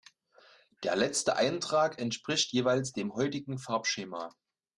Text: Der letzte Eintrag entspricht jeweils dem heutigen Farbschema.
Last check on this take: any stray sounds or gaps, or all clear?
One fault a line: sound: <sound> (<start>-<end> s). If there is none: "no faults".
no faults